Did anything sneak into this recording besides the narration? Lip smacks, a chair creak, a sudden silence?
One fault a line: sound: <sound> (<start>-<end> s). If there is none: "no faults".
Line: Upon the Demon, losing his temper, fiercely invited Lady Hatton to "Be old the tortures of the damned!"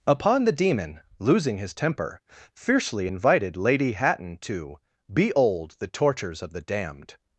no faults